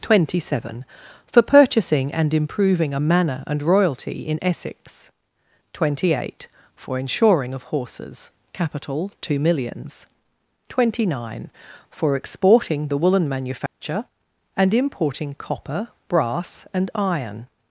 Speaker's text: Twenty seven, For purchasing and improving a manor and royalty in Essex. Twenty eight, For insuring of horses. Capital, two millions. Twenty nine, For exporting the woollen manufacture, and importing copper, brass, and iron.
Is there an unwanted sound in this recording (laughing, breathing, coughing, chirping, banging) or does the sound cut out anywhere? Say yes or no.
yes